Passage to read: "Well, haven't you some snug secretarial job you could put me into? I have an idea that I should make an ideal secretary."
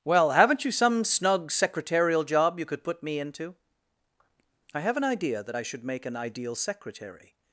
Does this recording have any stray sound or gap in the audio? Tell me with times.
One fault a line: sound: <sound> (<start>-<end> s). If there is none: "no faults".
no faults